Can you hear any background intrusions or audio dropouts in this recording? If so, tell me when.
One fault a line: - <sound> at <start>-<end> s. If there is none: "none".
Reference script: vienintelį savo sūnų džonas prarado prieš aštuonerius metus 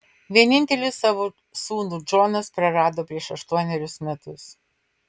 none